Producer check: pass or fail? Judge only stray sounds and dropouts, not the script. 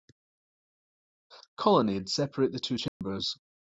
fail